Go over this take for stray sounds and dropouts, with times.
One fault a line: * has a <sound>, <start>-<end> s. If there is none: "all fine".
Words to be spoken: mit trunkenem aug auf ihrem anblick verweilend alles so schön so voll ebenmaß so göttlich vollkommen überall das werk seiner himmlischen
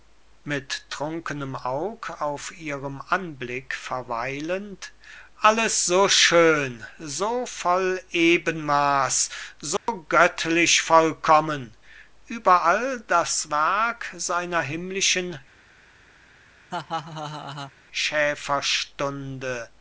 * has a dropout, 9.8-9.9 s
* has a laugh, 16.7-17.7 s